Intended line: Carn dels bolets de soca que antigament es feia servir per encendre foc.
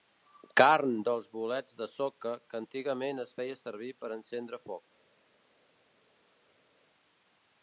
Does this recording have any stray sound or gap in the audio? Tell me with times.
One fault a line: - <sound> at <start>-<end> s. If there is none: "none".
none